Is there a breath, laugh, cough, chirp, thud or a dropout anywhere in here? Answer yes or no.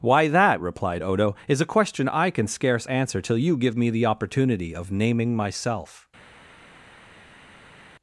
no